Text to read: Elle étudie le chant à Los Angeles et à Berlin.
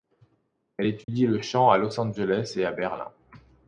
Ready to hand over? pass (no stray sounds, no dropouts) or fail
fail